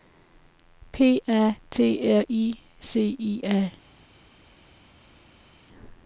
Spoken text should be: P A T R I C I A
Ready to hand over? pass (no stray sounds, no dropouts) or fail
pass